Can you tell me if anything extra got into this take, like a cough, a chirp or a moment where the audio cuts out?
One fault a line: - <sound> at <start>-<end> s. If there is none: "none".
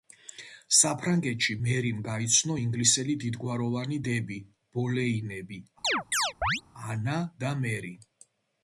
- chirp at 5.8-6.6 s